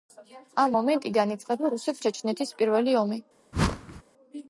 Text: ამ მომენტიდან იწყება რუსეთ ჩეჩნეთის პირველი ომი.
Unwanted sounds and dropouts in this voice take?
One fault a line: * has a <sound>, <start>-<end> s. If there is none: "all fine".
* has a whoosh, 3.5-4.0 s